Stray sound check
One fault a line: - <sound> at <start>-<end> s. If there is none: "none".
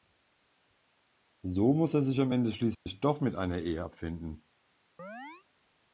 - dropout at 2.7-2.9 s
- chirp at 5.0-5.5 s